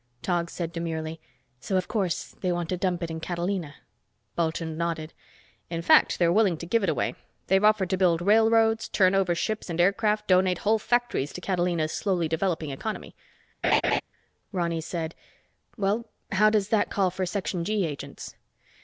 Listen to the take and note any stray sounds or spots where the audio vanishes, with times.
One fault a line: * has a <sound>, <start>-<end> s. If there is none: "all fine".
* has a laugh, 13.6-14.0 s